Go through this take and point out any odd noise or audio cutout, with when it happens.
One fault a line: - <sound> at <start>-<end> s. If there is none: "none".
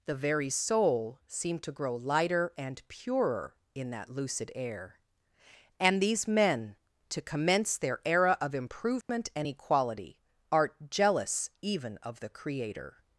- dropout at 9.0-9.1 s